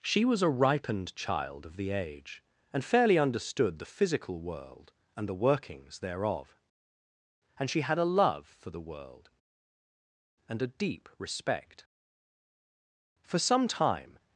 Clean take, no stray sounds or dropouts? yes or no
yes